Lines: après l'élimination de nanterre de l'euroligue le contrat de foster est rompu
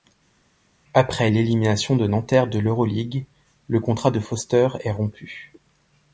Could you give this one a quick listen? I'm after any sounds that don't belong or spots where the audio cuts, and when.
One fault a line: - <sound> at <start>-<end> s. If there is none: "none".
none